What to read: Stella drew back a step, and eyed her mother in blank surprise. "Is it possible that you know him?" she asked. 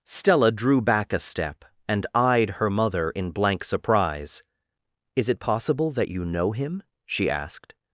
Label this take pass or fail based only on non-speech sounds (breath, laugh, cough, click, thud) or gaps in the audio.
pass